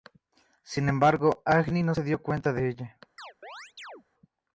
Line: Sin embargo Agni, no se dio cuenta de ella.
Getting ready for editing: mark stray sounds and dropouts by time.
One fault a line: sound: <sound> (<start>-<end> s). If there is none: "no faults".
sound: chirp (3.2-4.0 s)